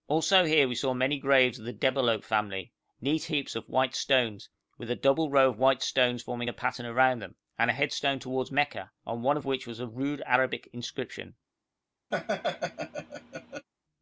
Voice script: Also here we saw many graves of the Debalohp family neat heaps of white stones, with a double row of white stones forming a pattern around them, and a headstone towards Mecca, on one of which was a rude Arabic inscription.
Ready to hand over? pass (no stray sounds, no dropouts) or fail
fail